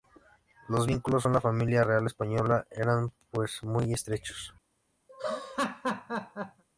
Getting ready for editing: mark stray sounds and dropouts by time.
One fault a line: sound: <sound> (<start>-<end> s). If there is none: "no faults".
sound: laugh (5.1-6.6 s)